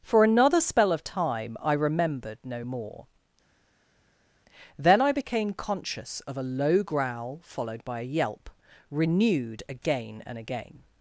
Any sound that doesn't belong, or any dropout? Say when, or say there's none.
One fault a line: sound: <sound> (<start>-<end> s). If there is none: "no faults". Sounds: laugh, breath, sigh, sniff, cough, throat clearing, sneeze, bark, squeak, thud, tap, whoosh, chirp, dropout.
no faults